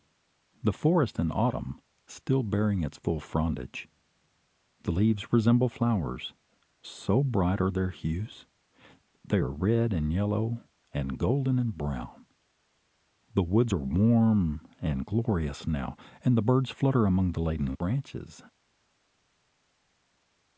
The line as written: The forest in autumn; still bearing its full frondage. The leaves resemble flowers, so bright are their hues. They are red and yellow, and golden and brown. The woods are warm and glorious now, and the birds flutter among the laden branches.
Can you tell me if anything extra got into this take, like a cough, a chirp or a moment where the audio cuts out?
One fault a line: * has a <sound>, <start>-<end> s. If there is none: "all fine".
all fine